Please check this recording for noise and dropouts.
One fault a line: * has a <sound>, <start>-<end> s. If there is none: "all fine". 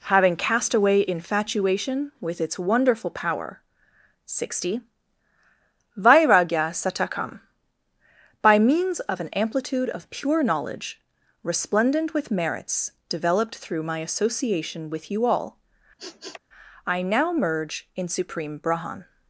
* has a sniff, 16.0-16.4 s